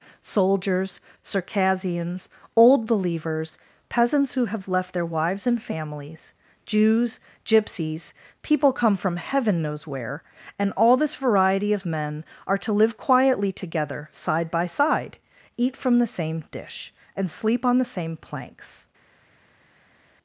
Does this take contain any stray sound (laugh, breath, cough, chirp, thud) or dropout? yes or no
no